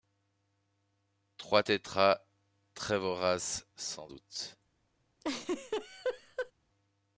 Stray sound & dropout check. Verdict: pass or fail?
fail